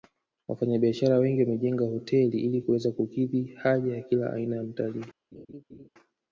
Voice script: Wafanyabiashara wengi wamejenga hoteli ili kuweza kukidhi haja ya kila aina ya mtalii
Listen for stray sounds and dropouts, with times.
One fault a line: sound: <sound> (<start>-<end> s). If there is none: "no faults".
sound: laugh (5.3-5.9 s)